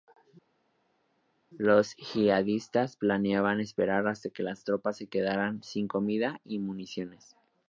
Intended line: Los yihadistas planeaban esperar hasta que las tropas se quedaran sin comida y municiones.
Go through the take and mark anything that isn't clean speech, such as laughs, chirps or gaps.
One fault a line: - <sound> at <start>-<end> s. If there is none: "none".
none